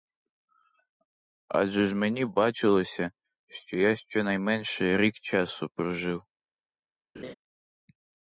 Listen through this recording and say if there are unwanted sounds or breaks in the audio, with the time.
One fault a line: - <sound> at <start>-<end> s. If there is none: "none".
- laugh at 7.1-7.3 s